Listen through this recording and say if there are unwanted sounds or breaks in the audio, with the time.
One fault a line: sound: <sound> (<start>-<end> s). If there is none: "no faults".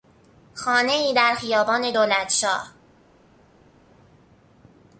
no faults